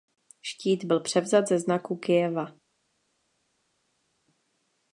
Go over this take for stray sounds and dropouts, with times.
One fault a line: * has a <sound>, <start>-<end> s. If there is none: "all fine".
all fine